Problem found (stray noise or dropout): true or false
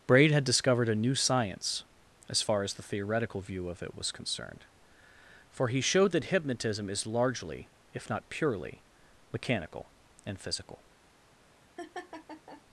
true